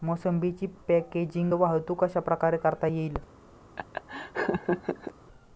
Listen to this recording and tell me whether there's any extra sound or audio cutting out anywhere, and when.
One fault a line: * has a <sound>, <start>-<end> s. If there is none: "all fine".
* has a laugh, 3.8-5.1 s